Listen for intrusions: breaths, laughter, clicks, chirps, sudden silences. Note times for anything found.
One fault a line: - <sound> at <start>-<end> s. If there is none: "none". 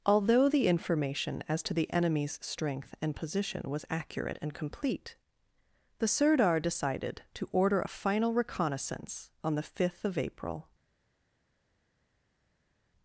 none